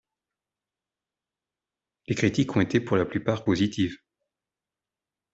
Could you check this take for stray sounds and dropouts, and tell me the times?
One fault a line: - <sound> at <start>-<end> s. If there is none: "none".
none